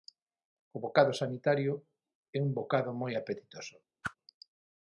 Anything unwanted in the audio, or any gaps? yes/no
yes